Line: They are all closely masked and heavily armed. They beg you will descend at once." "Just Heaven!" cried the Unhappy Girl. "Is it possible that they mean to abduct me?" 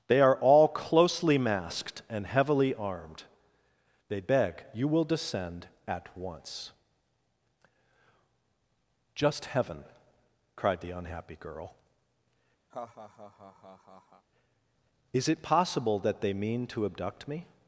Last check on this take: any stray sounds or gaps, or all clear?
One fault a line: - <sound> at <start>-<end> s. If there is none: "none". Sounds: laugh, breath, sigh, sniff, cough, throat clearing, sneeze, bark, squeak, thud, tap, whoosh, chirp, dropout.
- laugh at 12.7-14.3 s